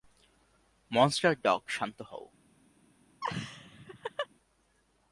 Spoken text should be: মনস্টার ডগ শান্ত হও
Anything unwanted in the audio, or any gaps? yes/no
yes